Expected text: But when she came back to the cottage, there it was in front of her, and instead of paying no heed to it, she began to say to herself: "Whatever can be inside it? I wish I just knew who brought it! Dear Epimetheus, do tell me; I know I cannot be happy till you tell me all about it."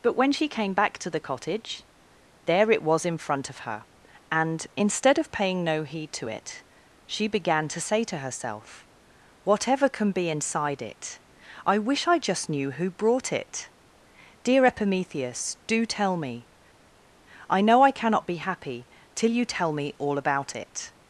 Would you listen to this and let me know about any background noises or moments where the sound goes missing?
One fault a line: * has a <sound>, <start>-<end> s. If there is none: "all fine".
all fine